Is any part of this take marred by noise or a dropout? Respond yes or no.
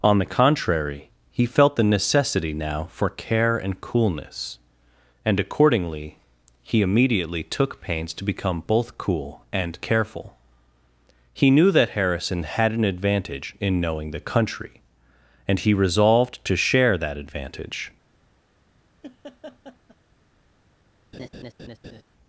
yes